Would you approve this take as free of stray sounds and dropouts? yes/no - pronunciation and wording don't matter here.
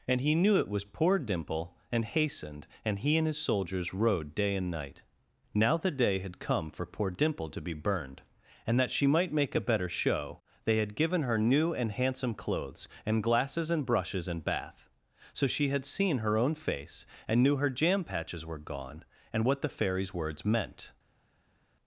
yes